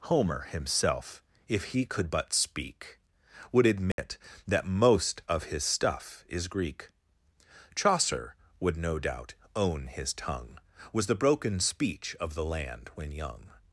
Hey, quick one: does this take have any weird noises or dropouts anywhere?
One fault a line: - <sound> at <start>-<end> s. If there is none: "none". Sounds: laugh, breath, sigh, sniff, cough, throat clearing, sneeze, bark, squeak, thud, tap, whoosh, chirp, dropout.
- dropout at 3.9-4.0 s